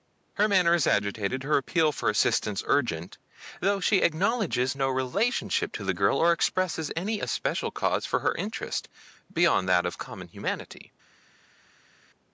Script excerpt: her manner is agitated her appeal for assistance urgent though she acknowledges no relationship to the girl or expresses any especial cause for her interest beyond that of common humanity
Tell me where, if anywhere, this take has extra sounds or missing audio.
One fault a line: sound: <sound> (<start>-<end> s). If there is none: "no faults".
no faults